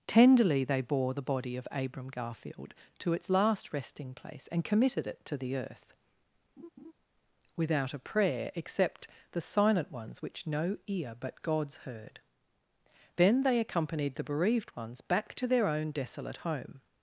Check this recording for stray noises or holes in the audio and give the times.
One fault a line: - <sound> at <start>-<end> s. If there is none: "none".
- laugh at 6.6-6.9 s